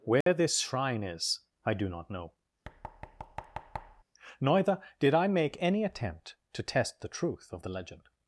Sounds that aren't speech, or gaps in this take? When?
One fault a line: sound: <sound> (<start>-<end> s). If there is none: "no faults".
sound: dropout (0.2-0.3 s)
sound: thud (2.6-4.0 s)